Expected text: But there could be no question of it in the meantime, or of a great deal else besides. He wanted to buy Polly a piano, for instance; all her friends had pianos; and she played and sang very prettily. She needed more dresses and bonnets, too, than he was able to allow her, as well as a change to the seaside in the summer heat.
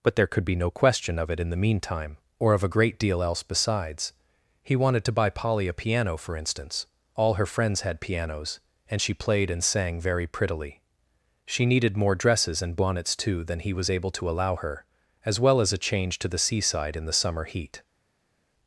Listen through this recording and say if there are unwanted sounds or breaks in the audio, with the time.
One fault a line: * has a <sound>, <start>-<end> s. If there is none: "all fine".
all fine